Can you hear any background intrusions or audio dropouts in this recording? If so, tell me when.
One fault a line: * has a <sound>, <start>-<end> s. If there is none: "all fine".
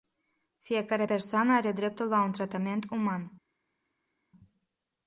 all fine